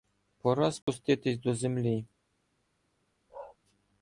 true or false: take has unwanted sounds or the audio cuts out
true